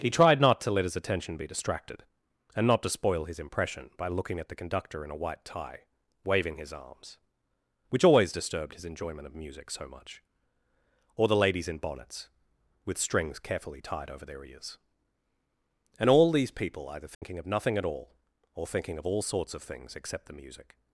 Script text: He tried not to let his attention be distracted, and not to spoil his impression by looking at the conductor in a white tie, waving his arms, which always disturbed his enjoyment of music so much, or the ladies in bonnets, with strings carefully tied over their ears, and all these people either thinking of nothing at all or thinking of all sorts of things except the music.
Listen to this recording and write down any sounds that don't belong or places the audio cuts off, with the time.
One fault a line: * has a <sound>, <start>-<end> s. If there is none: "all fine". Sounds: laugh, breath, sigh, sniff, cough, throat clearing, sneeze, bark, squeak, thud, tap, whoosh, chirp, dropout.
* has a dropout, 17.1-17.2 s